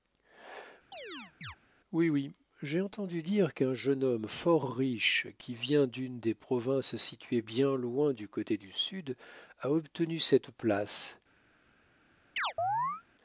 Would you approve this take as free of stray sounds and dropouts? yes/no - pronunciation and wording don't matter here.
no